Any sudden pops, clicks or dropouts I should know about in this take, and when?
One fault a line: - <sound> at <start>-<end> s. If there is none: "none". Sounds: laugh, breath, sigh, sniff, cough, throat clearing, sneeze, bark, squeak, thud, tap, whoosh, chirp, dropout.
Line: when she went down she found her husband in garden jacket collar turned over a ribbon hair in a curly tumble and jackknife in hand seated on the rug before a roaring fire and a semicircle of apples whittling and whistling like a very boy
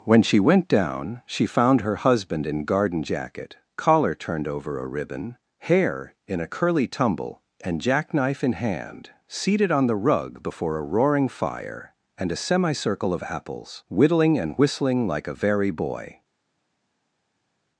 none